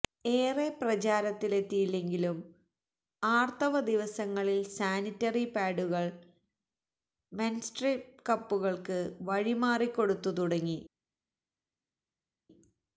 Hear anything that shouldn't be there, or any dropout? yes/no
no